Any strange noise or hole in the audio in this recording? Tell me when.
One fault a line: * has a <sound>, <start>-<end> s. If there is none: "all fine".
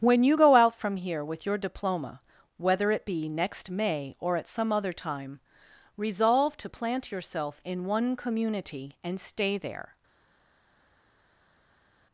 all fine